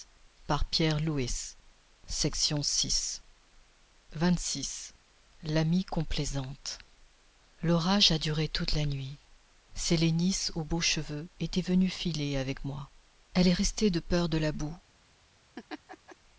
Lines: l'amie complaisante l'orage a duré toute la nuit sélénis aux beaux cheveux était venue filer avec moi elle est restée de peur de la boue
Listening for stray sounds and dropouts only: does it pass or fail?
fail